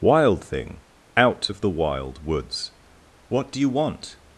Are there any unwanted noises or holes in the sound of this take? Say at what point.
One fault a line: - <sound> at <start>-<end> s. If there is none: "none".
none